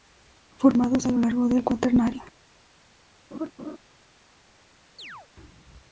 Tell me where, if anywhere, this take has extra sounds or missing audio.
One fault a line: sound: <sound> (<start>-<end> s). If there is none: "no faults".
sound: laugh (3.3-3.8 s)
sound: chirp (5.0-5.3 s)